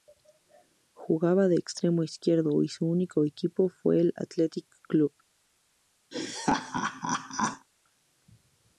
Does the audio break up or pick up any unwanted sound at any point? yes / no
yes